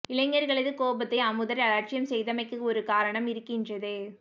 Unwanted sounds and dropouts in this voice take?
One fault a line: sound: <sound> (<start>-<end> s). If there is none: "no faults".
no faults